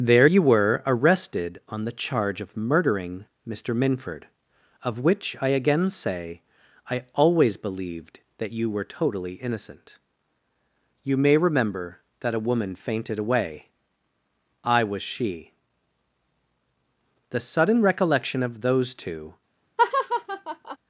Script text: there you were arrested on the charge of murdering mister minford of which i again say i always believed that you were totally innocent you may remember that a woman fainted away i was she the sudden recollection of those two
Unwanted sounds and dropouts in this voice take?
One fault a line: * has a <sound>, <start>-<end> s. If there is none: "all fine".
* has a laugh, 19.8-20.8 s